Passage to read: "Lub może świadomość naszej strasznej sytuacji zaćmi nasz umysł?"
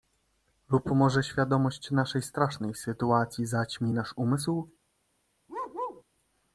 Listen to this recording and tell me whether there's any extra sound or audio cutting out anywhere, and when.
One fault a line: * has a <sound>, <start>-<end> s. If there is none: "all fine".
* has a bark, 5.5-6.0 s